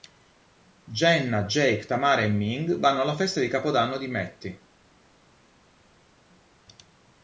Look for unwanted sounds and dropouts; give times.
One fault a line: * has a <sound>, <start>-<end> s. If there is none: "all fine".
all fine